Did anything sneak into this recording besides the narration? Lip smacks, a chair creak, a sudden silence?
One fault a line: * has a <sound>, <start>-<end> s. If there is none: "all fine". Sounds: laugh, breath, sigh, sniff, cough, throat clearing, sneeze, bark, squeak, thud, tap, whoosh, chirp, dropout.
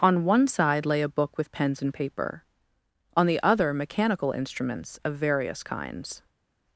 all fine